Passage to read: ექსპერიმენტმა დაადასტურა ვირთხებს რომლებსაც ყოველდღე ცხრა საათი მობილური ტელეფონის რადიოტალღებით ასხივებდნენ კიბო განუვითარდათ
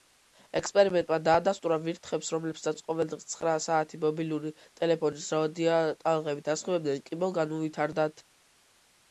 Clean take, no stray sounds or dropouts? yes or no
yes